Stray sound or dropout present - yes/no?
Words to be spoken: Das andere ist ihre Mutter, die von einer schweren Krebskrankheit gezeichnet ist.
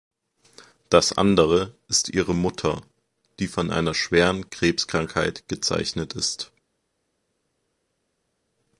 no